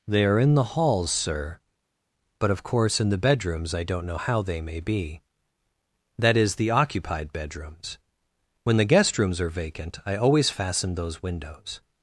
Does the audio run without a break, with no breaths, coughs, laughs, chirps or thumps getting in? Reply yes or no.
yes